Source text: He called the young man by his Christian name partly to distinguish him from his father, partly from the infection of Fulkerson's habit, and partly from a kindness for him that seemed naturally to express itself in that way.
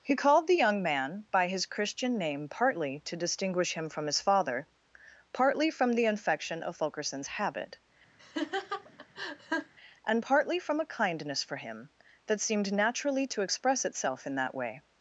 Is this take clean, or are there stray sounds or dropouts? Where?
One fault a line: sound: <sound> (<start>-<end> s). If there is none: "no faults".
sound: laugh (8.2-9.7 s)